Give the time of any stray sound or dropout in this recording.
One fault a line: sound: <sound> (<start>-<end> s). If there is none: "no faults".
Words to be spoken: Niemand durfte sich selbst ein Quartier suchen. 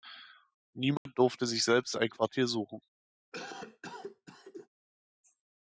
sound: dropout (1.0-1.1 s)
sound: cough (3.3-4.7 s)